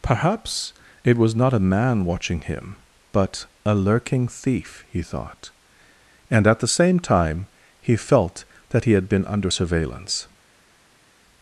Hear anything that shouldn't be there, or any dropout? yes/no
no